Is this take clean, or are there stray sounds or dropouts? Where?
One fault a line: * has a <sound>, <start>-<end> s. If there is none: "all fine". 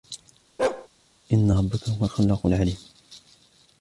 * has a bark, 0.6-0.9 s